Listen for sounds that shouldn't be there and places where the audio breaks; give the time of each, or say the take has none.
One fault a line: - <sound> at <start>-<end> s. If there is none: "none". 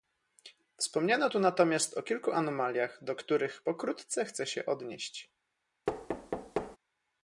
- thud at 5.9-6.8 s